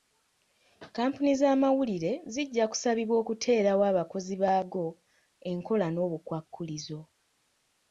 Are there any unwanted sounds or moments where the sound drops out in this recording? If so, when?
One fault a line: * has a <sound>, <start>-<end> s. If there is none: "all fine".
all fine